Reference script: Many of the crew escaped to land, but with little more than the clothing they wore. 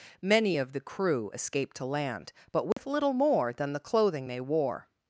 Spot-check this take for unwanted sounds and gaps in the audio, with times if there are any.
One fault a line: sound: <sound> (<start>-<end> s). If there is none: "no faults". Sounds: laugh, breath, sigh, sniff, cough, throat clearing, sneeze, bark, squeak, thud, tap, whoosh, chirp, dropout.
sound: dropout (2.7-2.8 s)